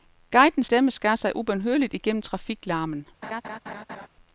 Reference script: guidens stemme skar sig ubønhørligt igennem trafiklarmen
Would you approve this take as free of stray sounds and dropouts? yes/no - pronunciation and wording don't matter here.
no